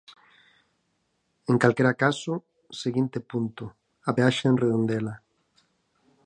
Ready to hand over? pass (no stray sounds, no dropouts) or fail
pass